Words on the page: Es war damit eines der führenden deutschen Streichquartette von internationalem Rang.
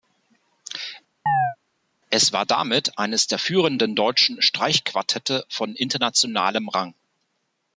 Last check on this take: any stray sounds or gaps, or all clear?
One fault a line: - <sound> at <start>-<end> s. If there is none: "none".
- chirp at 1.3-1.6 s